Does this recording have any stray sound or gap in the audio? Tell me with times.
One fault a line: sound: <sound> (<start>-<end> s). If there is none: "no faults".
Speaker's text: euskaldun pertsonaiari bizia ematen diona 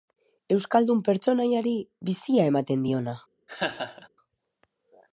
sound: laugh (3.5-4.1 s)